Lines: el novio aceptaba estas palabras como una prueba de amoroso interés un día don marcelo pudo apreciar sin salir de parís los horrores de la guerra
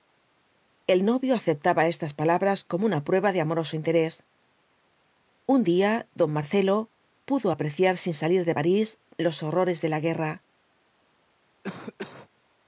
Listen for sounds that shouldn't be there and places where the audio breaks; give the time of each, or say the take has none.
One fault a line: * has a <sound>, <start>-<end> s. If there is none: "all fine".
* has a cough, 11.6-12.3 s